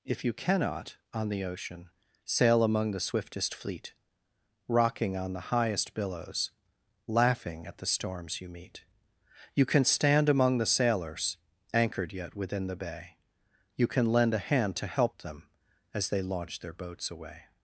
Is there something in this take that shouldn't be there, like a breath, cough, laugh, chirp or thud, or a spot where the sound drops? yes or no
no